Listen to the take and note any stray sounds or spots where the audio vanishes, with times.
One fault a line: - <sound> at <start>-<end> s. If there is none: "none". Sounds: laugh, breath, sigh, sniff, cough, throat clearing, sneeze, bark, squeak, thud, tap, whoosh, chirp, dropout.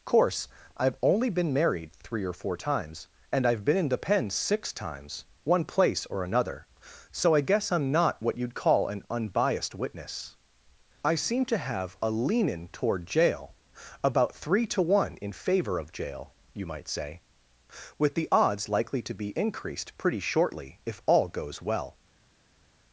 none